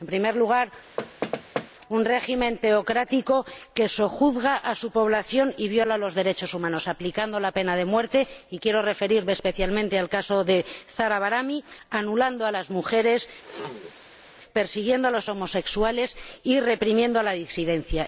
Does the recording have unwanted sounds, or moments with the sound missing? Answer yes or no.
yes